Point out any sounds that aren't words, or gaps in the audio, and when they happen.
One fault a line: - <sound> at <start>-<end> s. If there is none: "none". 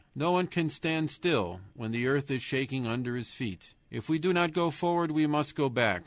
none